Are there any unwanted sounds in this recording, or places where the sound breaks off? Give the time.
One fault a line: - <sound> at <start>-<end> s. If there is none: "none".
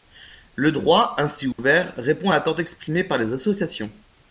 - dropout at 1.5-1.6 s